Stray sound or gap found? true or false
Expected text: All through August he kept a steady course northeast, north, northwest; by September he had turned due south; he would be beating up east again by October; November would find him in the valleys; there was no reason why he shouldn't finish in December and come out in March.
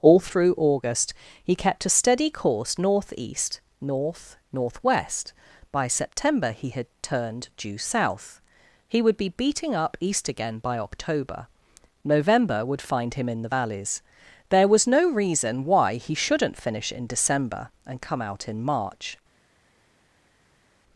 false